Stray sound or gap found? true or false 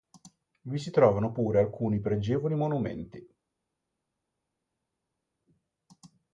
false